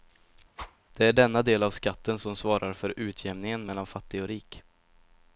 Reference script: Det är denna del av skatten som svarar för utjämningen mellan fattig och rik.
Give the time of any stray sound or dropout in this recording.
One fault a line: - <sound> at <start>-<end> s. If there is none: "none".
- whoosh at 0.6-0.8 s